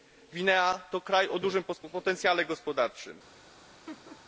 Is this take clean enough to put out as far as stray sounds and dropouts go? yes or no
no